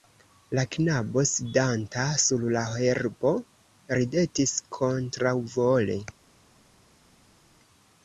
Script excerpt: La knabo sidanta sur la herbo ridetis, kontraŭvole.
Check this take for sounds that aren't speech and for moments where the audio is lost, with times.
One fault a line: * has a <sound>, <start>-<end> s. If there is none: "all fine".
all fine